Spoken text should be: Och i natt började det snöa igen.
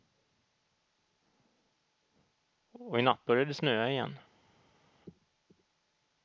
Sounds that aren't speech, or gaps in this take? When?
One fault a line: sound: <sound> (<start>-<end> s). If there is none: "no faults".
no faults